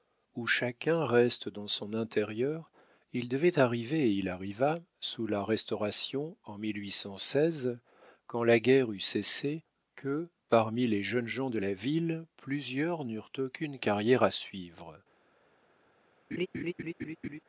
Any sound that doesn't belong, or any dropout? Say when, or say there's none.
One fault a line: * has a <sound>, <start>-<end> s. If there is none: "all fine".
* has a laugh, 16.3-17.4 s